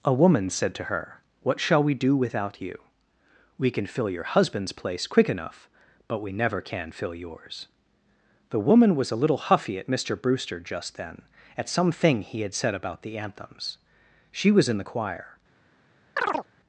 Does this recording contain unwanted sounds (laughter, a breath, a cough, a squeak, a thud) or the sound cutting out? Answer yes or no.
yes